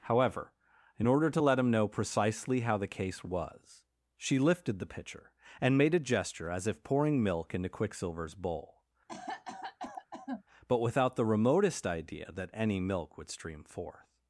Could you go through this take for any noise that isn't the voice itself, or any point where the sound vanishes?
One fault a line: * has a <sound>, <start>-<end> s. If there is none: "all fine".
* has a cough, 9.1-10.4 s